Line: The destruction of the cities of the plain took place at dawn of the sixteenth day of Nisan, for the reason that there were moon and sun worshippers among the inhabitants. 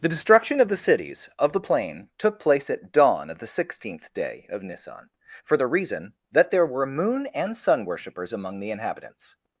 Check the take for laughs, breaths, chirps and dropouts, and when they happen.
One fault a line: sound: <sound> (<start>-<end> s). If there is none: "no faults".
no faults